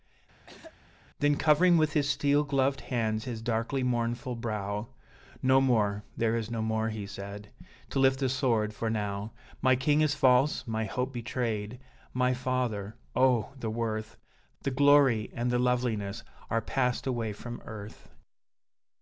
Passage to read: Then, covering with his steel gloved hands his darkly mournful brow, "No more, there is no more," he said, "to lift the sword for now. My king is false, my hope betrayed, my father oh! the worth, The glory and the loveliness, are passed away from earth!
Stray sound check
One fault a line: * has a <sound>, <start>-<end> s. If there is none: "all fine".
* has a throat clearing, 0.5-0.7 s